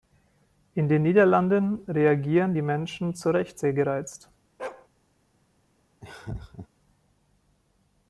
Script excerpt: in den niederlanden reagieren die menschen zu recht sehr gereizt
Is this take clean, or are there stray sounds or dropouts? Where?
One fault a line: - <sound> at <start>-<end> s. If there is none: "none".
- bark at 4.6-4.9 s
- laugh at 6.0-6.7 s